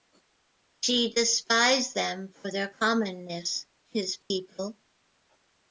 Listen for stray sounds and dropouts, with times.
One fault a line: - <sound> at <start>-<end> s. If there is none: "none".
- dropout at 4.2-4.3 s